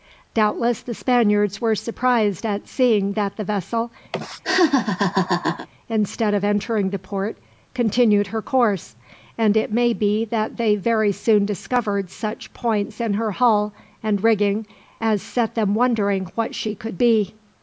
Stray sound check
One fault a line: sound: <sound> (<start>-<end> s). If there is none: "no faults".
sound: laugh (4.1-5.7 s)